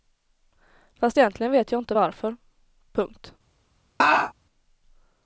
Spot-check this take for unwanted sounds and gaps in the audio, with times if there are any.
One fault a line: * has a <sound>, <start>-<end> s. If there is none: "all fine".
* has a laugh, 4.0-4.3 s